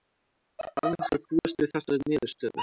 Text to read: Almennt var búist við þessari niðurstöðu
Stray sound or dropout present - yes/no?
no